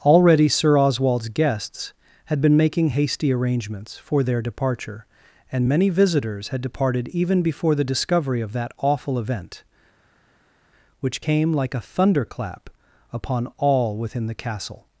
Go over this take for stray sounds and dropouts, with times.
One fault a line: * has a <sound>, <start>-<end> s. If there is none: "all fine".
all fine